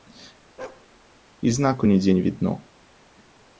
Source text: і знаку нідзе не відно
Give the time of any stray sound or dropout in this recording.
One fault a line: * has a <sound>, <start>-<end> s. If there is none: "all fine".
* has a bark, 0.6-0.9 s